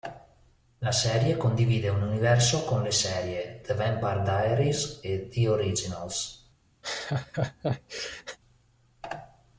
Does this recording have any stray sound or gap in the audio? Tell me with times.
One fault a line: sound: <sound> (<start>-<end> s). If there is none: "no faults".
sound: laugh (6.8-8.4 s)